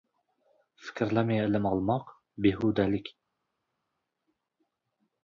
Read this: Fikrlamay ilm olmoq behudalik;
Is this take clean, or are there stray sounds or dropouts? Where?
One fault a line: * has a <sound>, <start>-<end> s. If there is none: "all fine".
all fine